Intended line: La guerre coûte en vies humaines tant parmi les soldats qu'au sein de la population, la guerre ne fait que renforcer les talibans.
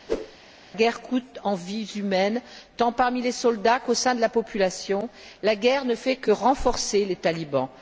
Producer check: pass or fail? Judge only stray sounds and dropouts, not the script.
fail